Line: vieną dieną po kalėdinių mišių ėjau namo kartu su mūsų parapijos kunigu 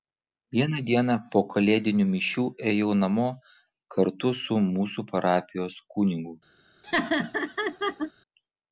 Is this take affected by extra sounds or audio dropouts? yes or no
yes